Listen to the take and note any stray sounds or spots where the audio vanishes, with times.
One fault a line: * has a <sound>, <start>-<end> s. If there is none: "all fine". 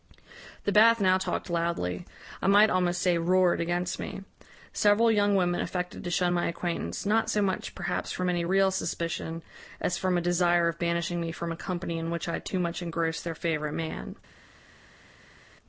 all fine